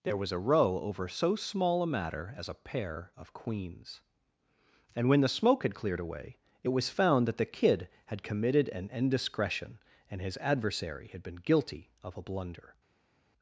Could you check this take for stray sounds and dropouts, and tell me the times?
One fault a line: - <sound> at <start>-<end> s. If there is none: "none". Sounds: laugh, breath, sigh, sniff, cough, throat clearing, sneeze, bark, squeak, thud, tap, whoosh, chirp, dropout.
none